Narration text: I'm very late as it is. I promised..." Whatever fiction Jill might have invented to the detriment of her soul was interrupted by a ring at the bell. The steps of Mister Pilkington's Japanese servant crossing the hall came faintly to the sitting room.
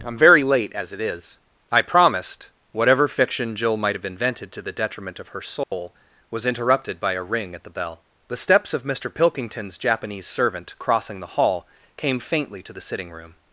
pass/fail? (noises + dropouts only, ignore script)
fail